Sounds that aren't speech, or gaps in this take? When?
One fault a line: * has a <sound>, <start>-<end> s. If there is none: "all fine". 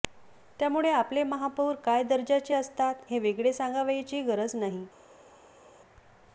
all fine